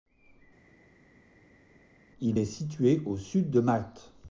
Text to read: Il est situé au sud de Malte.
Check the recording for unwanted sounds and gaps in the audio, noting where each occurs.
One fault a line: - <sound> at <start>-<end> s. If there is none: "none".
none